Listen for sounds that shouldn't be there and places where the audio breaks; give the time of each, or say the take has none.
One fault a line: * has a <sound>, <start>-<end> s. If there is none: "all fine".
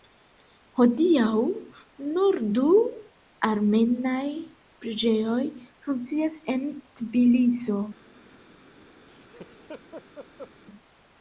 * has a laugh, 9.1-10.5 s